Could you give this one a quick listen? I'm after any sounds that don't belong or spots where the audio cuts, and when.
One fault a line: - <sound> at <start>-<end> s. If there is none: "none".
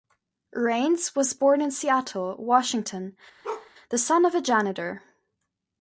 - bark at 3.4-3.7 s